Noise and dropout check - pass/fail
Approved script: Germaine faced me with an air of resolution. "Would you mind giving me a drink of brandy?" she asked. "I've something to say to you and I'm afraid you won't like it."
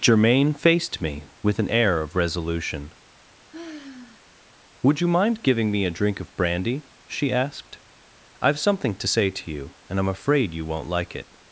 fail